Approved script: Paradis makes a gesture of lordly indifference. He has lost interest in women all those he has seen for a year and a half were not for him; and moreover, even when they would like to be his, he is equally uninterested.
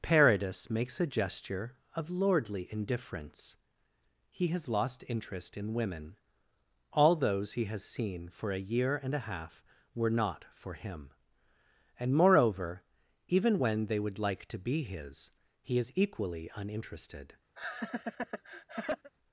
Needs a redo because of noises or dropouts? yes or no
yes